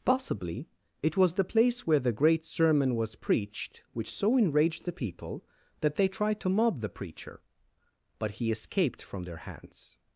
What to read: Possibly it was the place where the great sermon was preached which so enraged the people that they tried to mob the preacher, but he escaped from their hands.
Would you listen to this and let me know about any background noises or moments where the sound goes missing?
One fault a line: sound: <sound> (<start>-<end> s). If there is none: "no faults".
no faults